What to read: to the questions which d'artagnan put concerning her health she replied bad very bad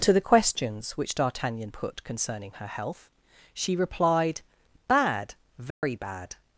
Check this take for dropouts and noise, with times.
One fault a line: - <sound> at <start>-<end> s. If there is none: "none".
- dropout at 5.7-5.8 s